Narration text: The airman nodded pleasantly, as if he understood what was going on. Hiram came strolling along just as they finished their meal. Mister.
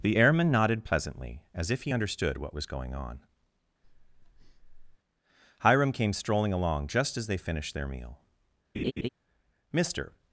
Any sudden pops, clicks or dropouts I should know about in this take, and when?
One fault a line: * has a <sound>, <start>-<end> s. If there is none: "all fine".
* has a breath, 3.8-5.0 s
* has a laugh, 8.7-9.1 s